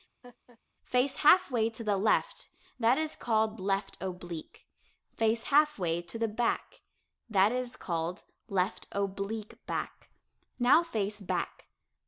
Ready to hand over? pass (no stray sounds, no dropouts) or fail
fail